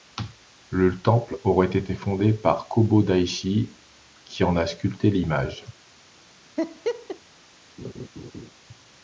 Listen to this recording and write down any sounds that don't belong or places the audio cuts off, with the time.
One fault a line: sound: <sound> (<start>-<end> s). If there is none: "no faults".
sound: laugh (6.6-7.2 s)
sound: laugh (7.8-8.5 s)